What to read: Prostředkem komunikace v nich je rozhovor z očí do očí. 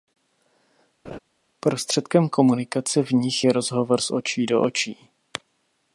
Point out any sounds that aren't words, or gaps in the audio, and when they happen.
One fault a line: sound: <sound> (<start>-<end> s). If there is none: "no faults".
sound: laugh (1.1-1.2 s)